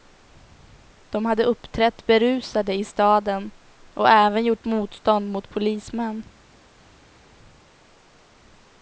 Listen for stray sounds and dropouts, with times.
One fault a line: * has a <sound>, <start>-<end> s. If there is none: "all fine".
all fine